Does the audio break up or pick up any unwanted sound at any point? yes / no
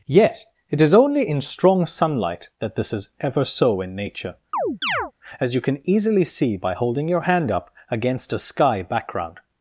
yes